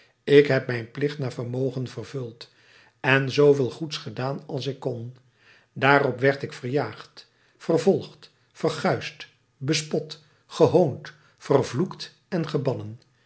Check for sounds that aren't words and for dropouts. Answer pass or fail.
pass